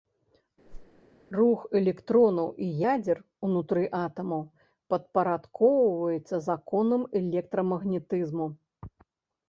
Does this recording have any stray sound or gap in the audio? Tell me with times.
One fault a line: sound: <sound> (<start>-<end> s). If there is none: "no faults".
sound: whoosh (0.7-1.0 s)